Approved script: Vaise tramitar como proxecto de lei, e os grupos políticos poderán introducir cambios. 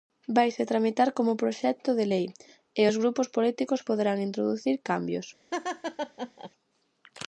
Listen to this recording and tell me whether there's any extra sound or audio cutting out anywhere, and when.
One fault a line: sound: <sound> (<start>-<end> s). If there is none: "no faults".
sound: laugh (5.5-6.5 s)